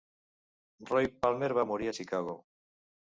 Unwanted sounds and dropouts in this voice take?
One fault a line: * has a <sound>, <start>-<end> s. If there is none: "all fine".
all fine